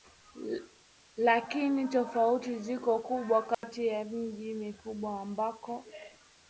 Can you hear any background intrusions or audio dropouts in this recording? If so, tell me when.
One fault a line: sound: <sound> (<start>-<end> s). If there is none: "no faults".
sound: dropout (3.5-3.6 s)